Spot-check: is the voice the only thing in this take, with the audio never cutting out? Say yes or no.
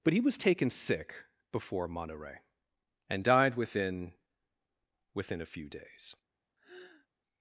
no